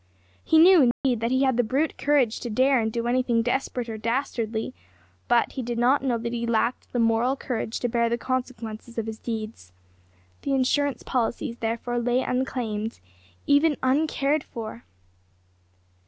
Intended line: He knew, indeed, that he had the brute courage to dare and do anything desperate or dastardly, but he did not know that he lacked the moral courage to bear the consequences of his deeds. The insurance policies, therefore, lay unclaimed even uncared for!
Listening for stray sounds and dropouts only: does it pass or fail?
fail